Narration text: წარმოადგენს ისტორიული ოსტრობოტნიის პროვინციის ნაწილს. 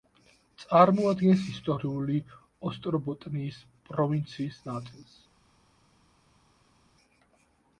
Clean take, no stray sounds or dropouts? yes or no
yes